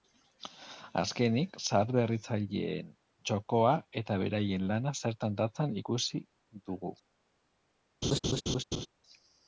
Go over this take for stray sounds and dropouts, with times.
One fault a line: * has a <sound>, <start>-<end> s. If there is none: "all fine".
* has a laugh, 8.0-8.9 s